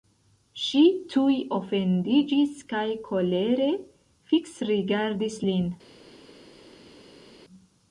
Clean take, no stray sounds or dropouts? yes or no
yes